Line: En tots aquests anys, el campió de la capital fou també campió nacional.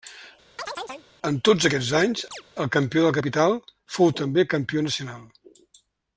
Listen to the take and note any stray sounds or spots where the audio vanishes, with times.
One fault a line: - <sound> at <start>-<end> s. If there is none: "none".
- chirp at 0.6-1.1 s
- chirp at 2.3-2.4 s